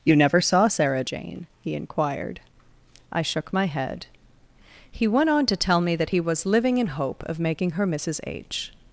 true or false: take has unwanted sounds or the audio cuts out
false